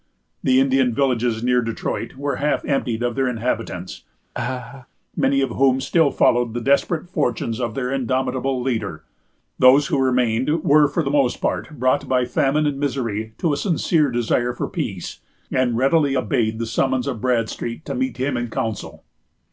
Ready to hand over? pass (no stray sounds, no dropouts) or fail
fail